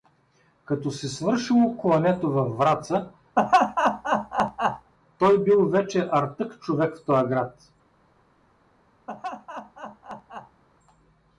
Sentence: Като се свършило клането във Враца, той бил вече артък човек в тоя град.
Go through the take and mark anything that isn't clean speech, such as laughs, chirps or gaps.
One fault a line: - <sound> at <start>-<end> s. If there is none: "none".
- laugh at 3.4-4.9 s
- laugh at 9.1-10.6 s